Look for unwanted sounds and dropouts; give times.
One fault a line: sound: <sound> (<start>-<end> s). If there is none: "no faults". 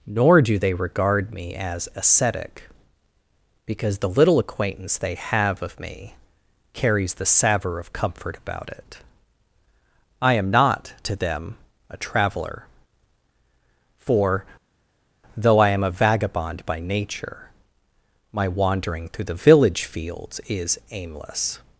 no faults